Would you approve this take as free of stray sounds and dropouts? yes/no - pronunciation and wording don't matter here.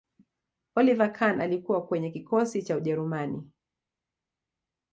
yes